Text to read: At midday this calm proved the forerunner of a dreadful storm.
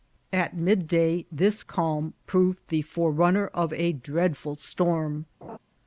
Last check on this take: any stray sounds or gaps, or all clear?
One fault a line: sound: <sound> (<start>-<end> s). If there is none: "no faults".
sound: laugh (5.4-5.6 s)